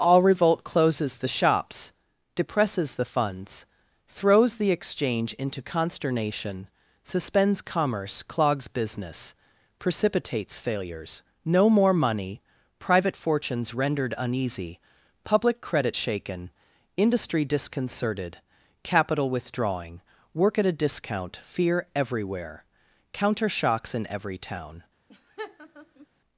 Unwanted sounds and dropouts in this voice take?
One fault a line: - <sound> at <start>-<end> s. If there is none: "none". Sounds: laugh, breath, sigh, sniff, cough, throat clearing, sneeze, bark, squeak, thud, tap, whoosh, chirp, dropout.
- laugh at 25.1-26.1 s